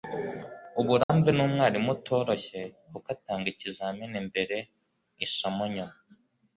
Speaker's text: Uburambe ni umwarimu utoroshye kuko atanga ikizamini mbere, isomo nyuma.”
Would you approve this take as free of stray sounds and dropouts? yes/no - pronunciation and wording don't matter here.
no